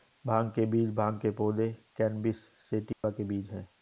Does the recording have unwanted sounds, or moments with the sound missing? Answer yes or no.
yes